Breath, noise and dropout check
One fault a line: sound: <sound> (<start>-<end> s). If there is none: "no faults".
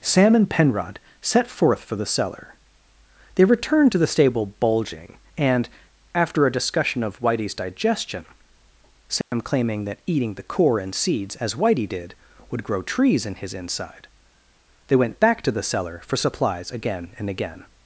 sound: dropout (9.2-9.3 s)